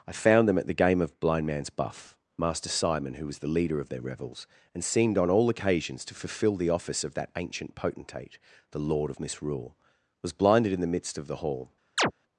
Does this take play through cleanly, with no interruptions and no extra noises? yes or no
no